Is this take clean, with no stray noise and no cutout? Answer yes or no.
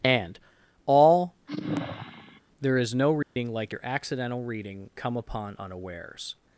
no